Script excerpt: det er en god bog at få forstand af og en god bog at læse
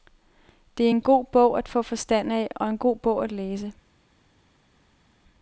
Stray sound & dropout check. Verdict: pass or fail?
pass